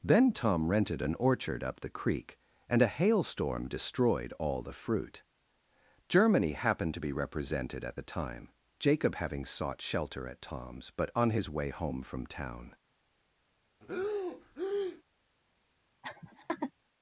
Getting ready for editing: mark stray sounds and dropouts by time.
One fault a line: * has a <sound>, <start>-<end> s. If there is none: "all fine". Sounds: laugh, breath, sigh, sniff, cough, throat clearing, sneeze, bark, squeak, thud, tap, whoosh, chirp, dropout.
* has a breath, 13.8-15.0 s
* has a laugh, 16.0-16.7 s